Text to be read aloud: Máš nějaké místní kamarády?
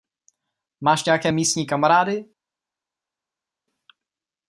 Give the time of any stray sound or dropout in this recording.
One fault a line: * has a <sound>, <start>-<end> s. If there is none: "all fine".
all fine